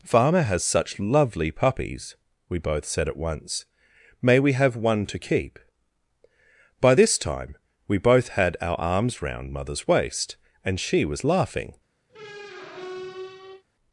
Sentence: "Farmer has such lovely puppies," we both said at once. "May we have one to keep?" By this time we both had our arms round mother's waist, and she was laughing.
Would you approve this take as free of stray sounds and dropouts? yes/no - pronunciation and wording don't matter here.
no